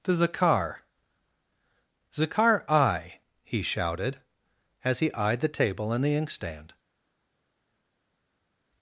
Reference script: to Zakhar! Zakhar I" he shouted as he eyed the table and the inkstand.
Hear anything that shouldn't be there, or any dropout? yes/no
no